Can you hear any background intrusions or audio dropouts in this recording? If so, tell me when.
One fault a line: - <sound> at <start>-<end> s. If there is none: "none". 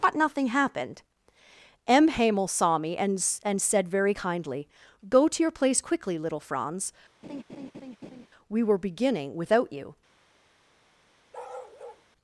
- laugh at 7.2-8.3 s
- bark at 11.3-12.1 s